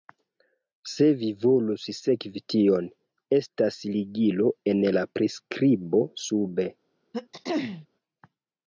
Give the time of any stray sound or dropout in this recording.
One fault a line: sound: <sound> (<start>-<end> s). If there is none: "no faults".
sound: throat clearing (7.1-7.9 s)